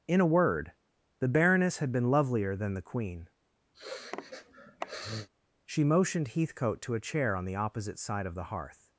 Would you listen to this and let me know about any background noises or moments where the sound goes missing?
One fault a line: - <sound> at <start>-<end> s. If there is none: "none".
- sniff at 3.7-5.3 s